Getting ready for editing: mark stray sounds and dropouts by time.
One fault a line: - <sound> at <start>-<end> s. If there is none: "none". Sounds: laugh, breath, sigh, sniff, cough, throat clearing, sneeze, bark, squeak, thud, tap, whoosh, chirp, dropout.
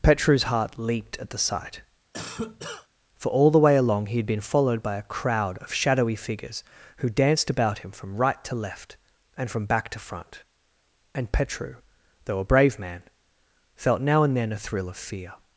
- cough at 2.1-2.9 s